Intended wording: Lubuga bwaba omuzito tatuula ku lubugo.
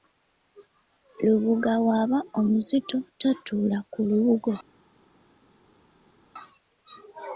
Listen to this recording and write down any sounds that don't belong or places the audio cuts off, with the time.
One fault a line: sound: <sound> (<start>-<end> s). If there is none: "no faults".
no faults